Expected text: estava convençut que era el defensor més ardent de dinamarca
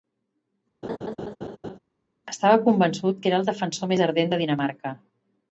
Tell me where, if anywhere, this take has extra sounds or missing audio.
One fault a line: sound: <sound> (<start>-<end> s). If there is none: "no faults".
sound: laugh (0.8-1.8 s)